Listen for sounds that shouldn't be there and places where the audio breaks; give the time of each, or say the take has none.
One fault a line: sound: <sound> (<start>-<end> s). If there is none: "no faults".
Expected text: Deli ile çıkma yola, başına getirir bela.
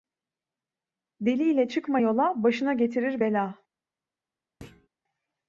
sound: thud (4.6-4.9 s)